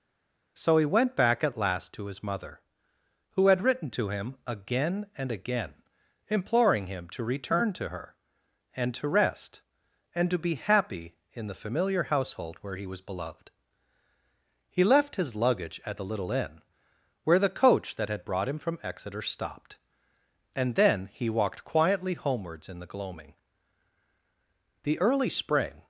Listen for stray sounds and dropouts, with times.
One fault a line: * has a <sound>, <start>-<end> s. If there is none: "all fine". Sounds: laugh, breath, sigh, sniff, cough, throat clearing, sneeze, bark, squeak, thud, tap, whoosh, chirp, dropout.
all fine